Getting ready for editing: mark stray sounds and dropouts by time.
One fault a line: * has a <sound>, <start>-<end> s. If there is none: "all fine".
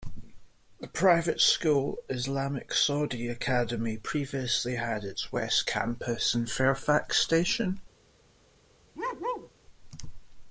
* has a bark, 8.9-9.5 s